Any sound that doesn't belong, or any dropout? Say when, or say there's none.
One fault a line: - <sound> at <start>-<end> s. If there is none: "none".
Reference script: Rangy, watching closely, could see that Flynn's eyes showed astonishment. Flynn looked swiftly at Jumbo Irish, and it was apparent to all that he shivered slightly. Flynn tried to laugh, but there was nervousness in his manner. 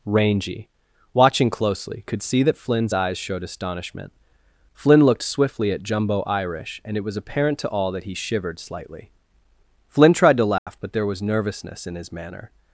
- dropout at 10.6-10.7 s